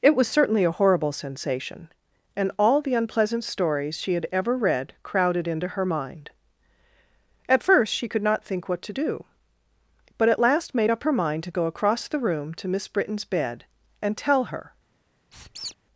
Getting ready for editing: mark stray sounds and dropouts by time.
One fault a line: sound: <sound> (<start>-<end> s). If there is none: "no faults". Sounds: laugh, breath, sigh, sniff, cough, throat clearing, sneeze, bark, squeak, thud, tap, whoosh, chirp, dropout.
sound: squeak (15.3-15.8 s)